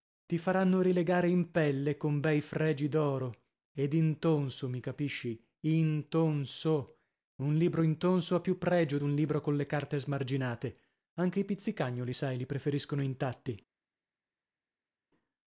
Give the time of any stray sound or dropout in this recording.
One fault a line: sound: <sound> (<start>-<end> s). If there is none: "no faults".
no faults